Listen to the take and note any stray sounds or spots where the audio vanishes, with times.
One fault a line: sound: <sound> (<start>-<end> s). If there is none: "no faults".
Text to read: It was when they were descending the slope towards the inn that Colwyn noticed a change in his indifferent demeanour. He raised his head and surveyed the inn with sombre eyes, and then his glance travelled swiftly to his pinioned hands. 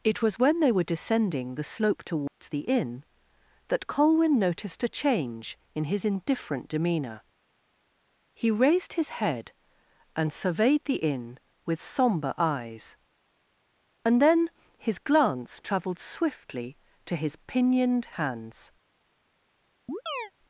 sound: dropout (2.3-2.4 s)
sound: chirp (19.9-20.3 s)